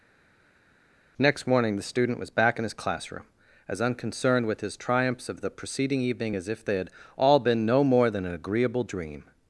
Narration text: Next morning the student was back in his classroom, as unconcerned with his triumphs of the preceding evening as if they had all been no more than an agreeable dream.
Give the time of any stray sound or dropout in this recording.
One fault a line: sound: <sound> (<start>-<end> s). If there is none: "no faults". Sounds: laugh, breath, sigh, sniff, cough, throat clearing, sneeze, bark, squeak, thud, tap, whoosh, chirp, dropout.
no faults